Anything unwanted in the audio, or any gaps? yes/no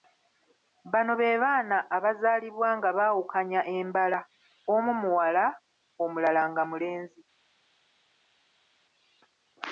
no